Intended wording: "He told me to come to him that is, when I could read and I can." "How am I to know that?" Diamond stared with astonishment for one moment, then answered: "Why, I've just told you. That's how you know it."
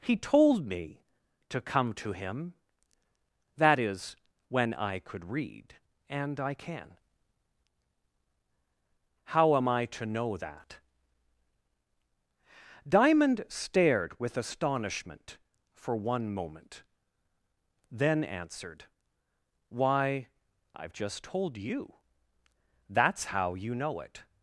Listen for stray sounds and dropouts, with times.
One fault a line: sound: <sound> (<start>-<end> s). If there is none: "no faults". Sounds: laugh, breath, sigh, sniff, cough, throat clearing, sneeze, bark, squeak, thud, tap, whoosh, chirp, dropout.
no faults